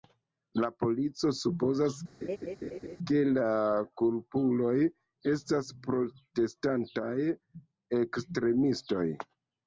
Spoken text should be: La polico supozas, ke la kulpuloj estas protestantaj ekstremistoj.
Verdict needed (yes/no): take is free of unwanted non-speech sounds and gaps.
no